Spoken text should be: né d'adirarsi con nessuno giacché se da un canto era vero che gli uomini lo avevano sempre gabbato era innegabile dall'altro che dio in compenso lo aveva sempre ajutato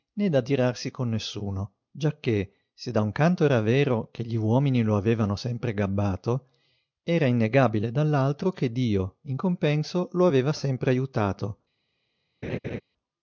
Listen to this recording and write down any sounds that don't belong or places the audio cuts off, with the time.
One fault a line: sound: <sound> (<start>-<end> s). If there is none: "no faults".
sound: laugh (12.4-12.8 s)